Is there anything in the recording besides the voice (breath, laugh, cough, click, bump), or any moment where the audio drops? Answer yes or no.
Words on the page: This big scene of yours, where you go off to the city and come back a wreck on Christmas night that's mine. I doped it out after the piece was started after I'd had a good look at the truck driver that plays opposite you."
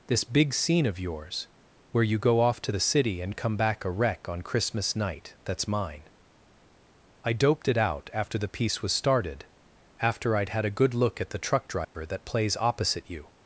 yes